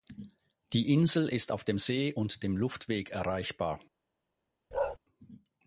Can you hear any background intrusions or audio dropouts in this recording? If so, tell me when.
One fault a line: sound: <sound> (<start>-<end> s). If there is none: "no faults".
sound: bark (4.7-5.0 s)